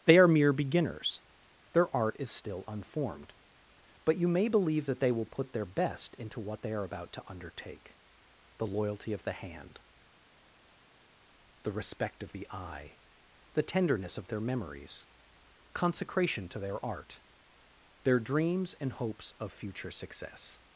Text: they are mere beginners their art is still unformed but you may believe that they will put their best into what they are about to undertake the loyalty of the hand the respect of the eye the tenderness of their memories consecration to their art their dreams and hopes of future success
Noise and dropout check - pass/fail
pass